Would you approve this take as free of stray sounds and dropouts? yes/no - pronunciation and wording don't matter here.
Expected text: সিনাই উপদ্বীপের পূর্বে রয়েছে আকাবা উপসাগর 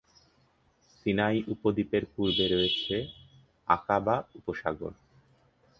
yes